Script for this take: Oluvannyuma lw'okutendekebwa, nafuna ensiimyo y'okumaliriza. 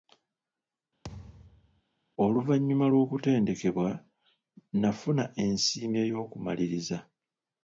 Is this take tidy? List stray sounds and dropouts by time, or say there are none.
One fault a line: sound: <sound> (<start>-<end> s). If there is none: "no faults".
sound: thud (1.0-1.8 s)